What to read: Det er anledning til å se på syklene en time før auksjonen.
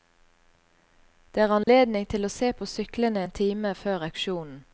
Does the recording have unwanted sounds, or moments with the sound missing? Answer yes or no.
yes